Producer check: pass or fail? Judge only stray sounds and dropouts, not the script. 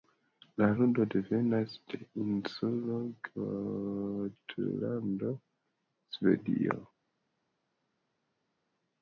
pass